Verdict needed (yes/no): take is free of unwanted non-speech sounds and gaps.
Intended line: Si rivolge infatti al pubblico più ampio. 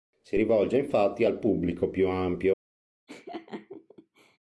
no